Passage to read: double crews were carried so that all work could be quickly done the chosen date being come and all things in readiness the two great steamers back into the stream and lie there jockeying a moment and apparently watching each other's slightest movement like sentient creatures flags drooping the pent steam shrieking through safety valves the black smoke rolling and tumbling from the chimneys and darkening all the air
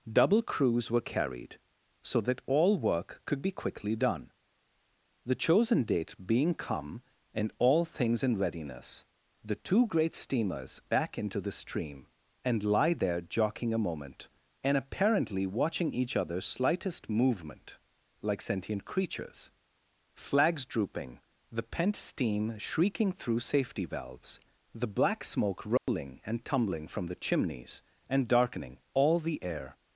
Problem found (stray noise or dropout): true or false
true